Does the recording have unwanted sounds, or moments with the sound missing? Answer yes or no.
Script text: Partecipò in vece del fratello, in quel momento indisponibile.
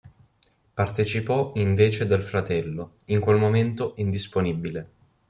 no